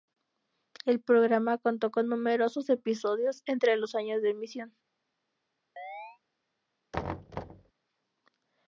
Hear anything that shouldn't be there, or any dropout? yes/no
yes